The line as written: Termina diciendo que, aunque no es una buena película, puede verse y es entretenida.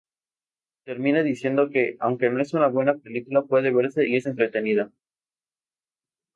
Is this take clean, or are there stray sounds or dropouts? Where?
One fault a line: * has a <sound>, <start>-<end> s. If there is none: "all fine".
all fine